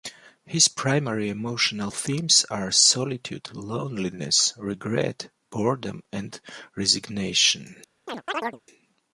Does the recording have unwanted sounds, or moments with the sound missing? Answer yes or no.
yes